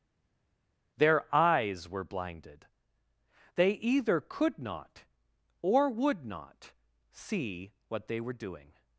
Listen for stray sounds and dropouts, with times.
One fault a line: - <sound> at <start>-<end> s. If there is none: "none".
none